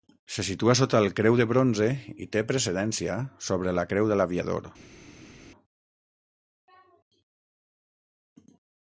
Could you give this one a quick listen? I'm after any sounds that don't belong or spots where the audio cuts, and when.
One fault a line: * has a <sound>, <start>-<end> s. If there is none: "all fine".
all fine